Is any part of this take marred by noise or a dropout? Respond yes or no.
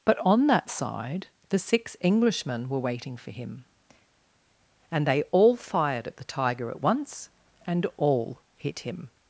no